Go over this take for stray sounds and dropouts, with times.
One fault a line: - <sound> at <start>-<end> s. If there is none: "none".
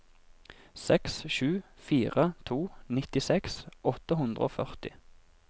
none